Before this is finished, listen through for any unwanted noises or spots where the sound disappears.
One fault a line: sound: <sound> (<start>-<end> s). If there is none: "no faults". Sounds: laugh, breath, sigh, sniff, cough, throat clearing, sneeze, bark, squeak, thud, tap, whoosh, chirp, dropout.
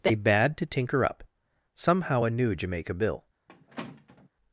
sound: squeak (3.5-4.3 s)